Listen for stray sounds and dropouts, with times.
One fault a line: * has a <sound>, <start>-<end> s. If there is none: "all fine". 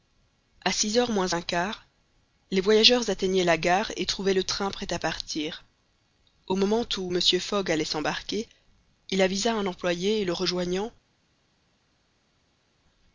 all fine